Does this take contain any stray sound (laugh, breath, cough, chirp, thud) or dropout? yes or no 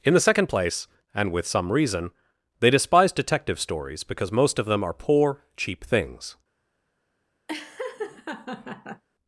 yes